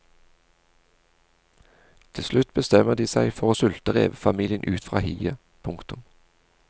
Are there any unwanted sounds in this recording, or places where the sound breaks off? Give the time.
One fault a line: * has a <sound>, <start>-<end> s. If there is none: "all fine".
all fine